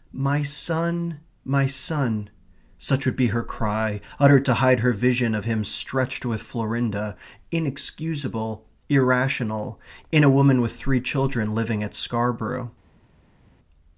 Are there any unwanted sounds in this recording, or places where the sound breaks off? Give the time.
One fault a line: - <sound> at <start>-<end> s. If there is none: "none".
none